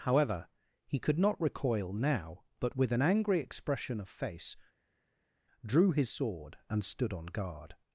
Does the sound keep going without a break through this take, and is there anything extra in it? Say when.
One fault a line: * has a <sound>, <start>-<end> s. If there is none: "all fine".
all fine